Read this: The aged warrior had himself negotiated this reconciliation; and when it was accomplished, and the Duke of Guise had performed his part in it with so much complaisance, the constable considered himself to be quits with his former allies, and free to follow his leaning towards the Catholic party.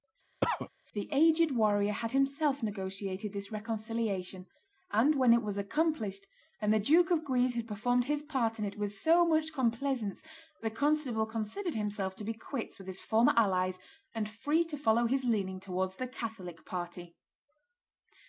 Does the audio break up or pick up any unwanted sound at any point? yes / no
yes